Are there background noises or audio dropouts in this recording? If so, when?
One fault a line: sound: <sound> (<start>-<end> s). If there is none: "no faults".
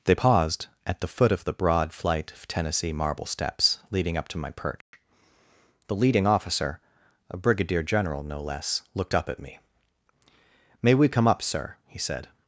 sound: dropout (4.8-4.9 s)